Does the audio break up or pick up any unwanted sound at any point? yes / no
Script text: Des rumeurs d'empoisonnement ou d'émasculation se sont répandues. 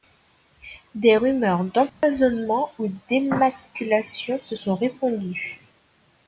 yes